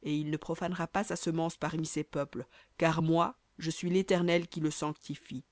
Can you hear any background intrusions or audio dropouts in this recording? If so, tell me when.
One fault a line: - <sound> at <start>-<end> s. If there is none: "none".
none